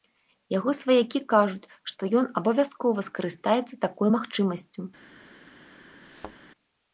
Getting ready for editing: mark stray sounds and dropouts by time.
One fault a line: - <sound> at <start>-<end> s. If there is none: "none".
- thud at 6.0-6.4 s